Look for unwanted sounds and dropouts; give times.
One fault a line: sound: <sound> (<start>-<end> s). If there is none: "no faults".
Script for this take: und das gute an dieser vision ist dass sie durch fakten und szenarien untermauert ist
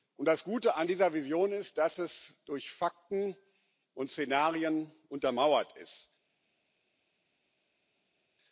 no faults